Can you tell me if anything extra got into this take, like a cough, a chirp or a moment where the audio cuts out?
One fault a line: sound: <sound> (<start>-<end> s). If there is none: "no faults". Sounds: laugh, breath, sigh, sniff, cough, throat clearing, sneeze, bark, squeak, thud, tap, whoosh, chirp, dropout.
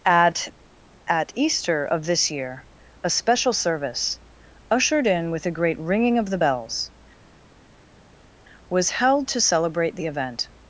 no faults